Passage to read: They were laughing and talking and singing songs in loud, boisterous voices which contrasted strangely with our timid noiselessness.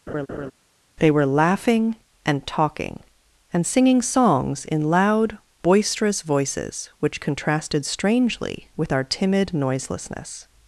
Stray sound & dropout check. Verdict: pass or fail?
fail